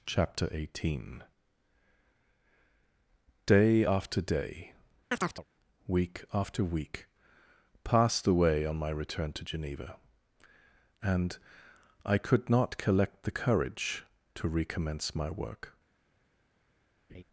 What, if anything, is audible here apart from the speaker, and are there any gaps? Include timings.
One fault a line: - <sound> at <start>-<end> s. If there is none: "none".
- chirp at 5.1-5.4 s
- laugh at 17.1-17.2 s